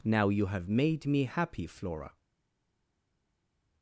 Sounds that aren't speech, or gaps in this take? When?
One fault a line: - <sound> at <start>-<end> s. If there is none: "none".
none